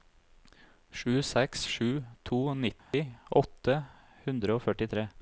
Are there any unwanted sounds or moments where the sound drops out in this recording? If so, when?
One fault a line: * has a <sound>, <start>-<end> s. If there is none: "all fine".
* has a dropout, 2.8-2.9 s